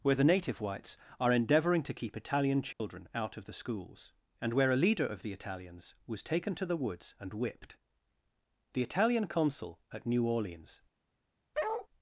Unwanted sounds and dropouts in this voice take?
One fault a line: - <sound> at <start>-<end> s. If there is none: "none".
- dropout at 2.7-2.8 s
- bark at 11.5-11.9 s